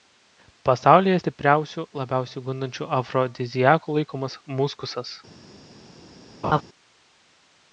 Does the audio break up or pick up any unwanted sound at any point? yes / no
yes